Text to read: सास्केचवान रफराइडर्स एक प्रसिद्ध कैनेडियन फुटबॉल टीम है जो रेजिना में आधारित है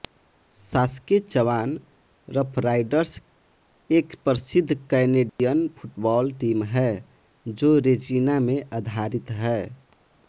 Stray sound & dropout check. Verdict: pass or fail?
fail